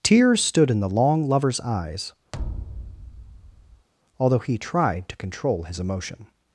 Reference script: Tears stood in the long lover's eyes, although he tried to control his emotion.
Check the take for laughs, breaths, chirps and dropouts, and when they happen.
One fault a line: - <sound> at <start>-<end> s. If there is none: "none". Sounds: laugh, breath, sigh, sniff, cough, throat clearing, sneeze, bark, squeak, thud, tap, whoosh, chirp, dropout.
- thud at 2.3-3.9 s